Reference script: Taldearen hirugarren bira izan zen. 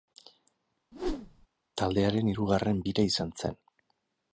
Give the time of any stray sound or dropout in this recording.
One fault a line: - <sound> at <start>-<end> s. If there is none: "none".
- whoosh at 0.9-1.5 s